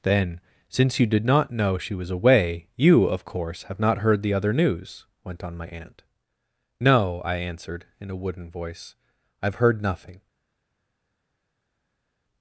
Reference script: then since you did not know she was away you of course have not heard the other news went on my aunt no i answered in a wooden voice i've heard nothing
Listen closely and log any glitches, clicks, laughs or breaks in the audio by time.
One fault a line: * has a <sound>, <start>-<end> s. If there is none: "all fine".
all fine